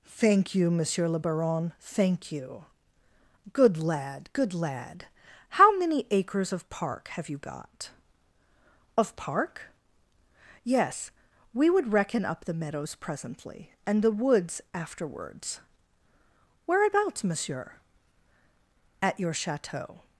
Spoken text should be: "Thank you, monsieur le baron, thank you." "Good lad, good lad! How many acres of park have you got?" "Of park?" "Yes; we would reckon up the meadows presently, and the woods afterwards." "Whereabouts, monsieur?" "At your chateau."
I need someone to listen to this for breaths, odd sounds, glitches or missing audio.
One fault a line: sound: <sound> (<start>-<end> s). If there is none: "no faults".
no faults